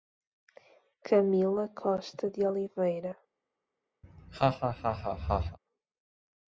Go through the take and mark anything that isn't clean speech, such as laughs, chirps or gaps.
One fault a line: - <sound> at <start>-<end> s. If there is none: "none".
- laugh at 4.0-5.6 s